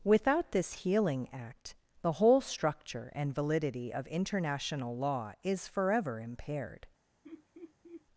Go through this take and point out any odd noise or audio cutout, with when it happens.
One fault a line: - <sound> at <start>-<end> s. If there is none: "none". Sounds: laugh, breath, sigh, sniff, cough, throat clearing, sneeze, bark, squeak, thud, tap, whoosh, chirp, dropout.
- laugh at 7.2-8.1 s